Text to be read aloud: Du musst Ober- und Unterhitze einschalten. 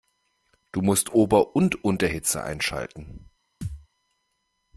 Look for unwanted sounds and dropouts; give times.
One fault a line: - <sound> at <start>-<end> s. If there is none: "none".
- thud at 3.6-3.9 s